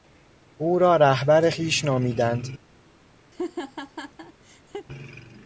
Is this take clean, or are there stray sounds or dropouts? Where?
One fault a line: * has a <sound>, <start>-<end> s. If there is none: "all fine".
* has a laugh, 3.3-4.9 s